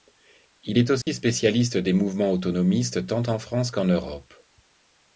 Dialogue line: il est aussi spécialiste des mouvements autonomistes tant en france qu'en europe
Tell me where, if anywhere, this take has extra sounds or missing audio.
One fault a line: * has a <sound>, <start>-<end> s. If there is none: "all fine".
* has a dropout, 1.0-1.1 s